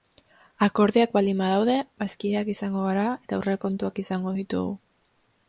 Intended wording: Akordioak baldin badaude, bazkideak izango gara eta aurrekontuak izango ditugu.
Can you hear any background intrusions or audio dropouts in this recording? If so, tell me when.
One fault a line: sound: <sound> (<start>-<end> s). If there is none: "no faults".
no faults